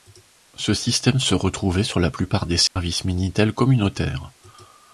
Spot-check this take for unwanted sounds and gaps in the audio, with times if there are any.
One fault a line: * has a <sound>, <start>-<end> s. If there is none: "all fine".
* has a dropout, 2.7-2.8 s